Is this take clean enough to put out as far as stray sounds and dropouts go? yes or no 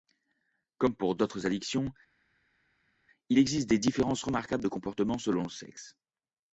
yes